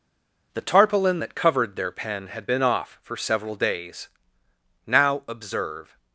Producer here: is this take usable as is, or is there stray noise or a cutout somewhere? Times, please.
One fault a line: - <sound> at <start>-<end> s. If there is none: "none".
none